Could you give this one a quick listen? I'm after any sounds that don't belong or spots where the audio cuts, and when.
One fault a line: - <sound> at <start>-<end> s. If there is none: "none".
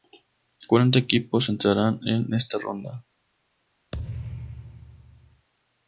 - thud at 3.9-5.5 s